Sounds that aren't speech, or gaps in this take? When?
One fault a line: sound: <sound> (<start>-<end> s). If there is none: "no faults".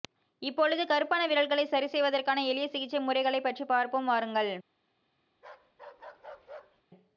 sound: bark (5.3-6.8 s)